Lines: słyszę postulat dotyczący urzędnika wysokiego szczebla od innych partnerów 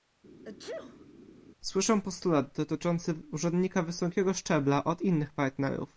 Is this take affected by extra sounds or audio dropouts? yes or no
yes